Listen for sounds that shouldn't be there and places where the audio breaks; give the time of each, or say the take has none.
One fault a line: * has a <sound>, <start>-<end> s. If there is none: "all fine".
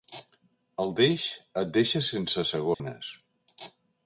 * has a dropout, 2.7-2.8 s